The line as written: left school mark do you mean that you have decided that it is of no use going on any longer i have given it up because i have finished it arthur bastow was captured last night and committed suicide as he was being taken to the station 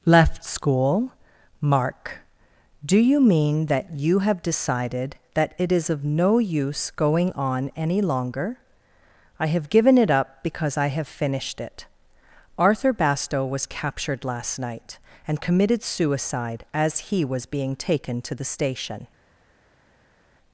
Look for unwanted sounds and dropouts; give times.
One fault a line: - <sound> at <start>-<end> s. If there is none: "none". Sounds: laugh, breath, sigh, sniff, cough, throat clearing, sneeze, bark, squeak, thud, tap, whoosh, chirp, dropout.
none